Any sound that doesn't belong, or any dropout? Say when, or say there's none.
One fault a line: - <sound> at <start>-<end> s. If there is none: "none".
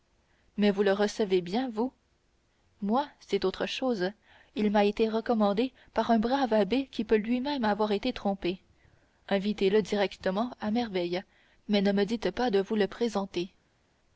none